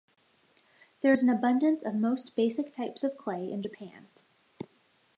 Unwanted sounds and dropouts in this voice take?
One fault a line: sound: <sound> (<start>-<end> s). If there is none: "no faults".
no faults